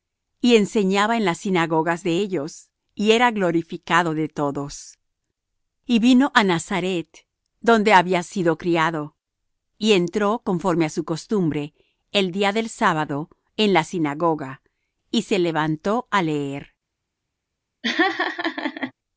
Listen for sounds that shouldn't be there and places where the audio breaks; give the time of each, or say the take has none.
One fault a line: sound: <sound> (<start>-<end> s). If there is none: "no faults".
sound: laugh (17.8-18.9 s)